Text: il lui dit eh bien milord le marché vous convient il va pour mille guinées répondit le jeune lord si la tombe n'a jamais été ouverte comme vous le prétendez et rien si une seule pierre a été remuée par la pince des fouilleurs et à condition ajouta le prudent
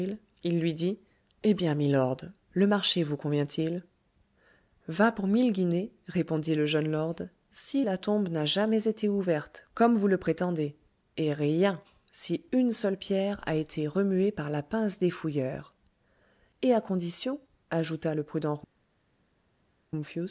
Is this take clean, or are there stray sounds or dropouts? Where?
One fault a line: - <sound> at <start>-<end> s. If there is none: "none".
none